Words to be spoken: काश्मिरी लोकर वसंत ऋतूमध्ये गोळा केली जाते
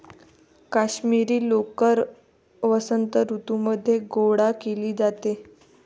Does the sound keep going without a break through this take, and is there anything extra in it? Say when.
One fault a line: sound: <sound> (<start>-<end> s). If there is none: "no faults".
no faults